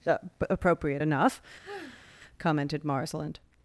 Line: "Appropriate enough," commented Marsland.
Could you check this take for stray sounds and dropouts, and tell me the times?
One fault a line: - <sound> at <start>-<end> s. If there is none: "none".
- sigh at 1.6-2.2 s